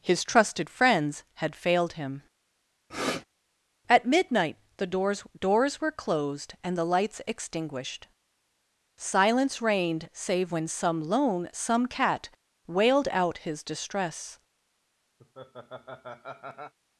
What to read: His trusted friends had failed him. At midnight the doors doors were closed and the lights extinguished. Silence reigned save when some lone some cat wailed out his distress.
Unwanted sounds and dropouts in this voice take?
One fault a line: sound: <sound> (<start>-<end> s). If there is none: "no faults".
sound: sniff (2.9-3.2 s)
sound: laugh (15.2-16.7 s)